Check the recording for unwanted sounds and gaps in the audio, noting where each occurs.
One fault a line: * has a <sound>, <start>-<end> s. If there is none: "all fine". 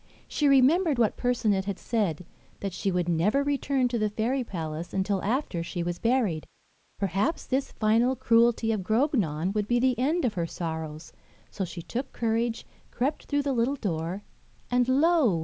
all fine